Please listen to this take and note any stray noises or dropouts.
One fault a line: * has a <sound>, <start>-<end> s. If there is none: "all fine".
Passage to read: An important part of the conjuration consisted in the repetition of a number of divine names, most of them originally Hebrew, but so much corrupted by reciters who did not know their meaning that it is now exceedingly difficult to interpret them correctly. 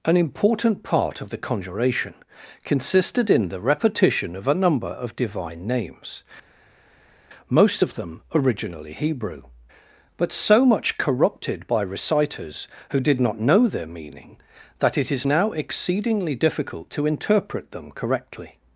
all fine